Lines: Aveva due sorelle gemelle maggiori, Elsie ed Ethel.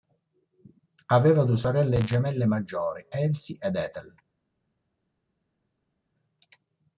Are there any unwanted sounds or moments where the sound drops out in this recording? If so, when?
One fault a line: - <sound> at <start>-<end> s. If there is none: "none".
none